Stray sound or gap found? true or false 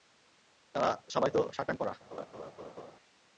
true